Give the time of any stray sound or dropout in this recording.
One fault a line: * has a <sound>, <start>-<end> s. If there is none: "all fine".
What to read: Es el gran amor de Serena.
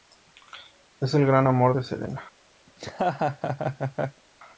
* has a laugh, 2.7-4.2 s